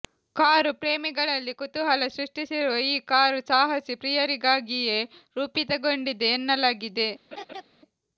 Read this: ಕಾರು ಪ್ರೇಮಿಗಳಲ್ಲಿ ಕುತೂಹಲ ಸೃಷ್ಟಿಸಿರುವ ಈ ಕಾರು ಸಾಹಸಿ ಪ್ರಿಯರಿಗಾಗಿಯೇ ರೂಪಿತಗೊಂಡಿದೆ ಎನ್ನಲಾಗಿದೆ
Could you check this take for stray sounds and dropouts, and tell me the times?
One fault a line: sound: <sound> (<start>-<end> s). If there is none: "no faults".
sound: laugh (7.3-7.6 s)